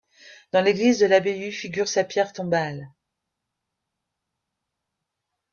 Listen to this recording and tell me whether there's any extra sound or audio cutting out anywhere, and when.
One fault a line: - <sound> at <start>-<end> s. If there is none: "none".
none